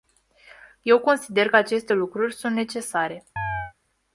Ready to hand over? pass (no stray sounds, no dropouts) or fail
fail